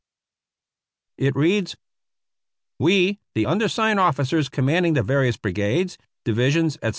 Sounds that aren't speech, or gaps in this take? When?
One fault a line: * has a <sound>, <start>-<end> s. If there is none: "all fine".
all fine